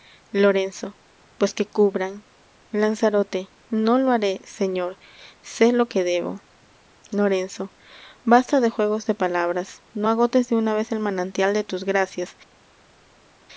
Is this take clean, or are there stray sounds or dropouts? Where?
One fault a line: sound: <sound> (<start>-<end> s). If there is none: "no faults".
no faults